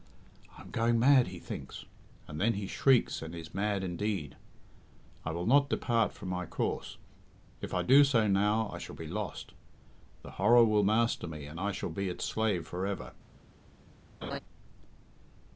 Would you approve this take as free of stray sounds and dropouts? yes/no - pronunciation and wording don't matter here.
no